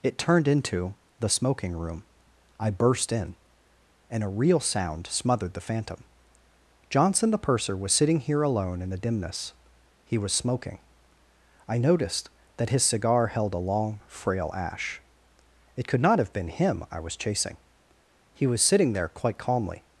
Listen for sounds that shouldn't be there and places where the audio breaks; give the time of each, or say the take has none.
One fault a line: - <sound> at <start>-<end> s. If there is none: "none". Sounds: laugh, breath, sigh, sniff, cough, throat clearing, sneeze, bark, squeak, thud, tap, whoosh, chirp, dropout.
none